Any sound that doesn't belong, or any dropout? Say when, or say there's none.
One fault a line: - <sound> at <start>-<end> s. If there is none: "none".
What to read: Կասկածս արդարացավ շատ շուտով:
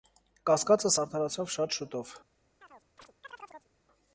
- chirp at 2.6-3.7 s